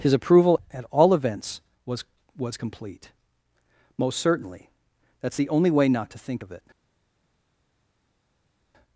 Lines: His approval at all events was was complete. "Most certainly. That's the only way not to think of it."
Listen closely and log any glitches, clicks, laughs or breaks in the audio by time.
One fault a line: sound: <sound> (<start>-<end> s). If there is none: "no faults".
no faults